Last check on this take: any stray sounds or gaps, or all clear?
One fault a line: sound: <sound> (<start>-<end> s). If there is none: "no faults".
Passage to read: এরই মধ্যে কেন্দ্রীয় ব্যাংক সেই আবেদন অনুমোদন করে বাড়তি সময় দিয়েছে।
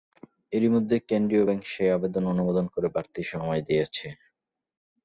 no faults